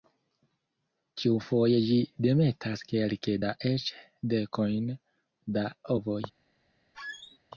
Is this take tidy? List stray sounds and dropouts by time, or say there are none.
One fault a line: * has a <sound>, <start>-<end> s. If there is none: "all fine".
* has a squeak, 6.9-7.4 s